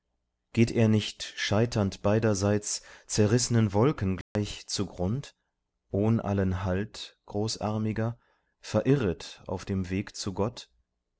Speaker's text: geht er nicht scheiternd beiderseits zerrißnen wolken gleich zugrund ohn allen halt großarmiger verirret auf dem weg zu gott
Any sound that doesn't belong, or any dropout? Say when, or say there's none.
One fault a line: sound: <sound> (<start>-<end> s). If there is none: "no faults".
sound: dropout (4.2-4.4 s)